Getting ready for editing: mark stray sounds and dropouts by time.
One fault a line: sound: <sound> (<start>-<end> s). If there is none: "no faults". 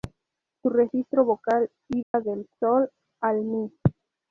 sound: dropout (2.0-2.1 s)